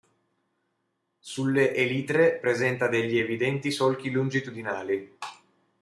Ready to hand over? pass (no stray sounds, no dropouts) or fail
pass